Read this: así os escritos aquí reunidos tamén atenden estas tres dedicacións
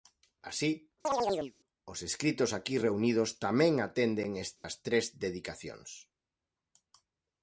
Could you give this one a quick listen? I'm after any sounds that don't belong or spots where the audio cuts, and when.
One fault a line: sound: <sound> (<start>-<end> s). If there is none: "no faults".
sound: chirp (1.0-1.5 s)
sound: dropout (4.6-4.6 s)